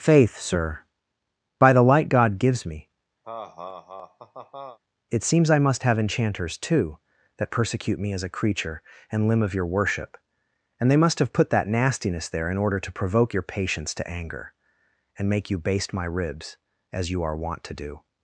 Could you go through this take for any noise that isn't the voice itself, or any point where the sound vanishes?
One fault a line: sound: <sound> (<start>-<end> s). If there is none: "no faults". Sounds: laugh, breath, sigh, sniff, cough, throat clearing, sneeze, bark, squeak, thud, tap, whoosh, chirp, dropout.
sound: laugh (3.2-4.8 s)